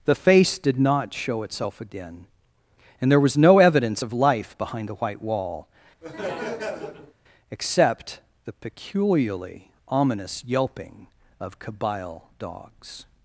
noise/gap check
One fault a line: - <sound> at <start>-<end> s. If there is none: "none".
- laugh at 6.0-7.1 s